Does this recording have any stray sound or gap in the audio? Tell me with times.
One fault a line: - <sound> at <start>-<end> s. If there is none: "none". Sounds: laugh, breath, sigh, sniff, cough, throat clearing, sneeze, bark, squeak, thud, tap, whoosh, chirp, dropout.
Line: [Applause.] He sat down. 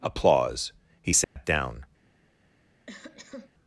- dropout at 1.2-1.4 s
- cough at 2.9-3.5 s